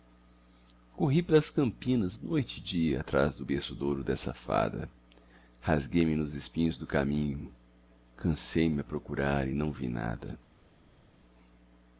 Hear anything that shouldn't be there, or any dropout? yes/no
no